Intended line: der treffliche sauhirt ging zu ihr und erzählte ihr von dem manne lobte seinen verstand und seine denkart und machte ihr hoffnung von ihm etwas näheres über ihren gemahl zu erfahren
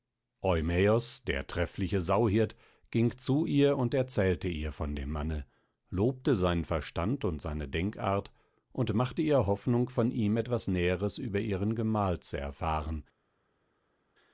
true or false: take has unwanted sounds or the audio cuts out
false